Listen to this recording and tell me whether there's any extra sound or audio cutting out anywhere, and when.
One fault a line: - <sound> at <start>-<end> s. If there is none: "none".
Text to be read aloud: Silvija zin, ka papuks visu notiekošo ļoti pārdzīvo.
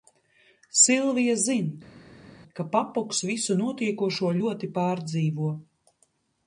none